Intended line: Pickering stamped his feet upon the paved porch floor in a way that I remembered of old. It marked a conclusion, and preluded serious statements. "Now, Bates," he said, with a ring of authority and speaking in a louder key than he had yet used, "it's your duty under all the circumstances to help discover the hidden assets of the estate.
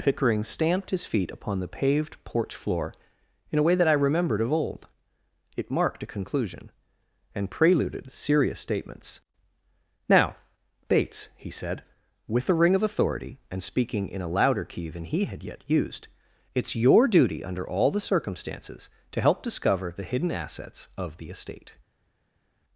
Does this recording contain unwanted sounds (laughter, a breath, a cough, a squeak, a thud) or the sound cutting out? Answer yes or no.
no